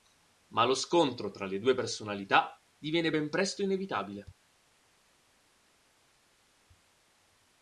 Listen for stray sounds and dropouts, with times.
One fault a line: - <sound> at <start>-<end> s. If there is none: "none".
none